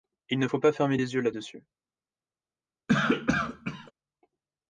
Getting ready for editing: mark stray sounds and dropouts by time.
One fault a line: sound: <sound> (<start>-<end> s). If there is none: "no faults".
sound: cough (2.9-3.9 s)